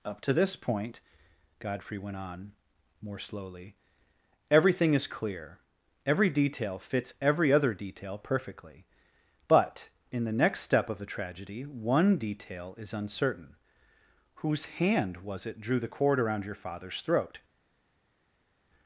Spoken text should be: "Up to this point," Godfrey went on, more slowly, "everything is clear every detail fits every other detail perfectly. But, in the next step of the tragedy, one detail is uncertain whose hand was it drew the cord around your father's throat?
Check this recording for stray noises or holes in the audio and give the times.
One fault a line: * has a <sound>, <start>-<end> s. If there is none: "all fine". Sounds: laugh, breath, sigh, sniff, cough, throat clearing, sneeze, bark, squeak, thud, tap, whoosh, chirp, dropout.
all fine